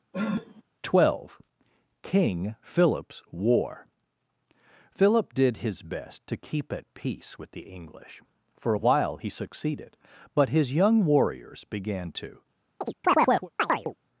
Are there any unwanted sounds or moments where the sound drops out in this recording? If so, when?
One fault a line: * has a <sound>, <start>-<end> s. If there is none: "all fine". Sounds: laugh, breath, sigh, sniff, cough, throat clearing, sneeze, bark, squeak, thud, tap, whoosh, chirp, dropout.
* has a sniff, 0.1-0.6 s
* has a chirp, 12.8-13.9 s